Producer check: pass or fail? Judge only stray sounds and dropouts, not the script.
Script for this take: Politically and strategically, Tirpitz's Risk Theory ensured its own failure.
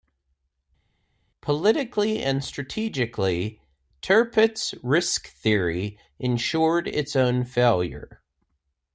pass